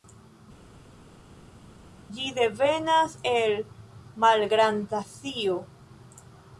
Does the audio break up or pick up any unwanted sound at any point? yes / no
no